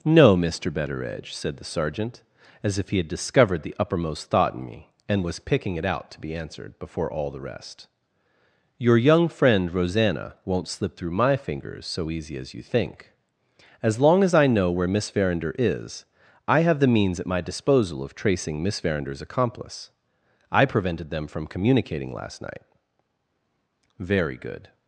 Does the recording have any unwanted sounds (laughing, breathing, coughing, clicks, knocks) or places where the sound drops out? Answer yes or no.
no